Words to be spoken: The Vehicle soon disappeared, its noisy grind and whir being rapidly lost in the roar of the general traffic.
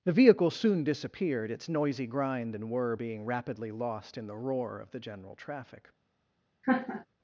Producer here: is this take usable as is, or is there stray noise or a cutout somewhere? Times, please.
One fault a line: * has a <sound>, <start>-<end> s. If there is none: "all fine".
* has a laugh, 6.6-7.1 s